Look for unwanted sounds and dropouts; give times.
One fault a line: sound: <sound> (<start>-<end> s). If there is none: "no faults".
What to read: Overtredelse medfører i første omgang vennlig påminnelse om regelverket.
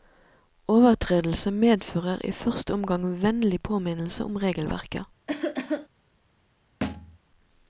sound: cough (5.3-5.9 s)
sound: thud (6.8-7.2 s)